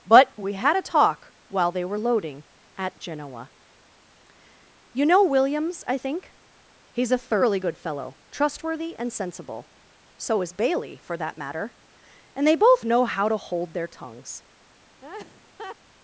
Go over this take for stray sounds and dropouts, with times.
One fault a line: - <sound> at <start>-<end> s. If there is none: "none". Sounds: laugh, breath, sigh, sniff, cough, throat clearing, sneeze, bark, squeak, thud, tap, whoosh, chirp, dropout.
- laugh at 15.0-15.8 s